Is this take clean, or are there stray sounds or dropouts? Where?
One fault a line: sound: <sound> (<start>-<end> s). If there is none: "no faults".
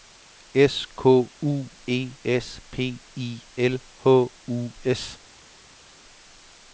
no faults